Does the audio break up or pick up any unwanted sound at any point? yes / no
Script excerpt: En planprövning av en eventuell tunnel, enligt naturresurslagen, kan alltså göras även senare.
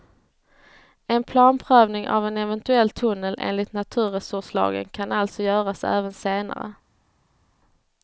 no